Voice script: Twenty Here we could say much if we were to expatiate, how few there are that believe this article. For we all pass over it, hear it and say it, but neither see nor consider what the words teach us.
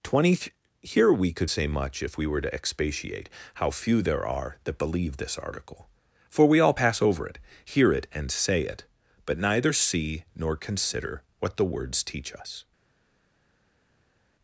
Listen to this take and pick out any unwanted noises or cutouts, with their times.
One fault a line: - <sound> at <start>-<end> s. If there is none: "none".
none